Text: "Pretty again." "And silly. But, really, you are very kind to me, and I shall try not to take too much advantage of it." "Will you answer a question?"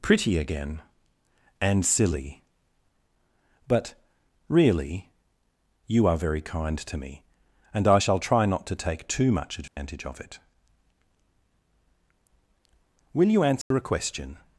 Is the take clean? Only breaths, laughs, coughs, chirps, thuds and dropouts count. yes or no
no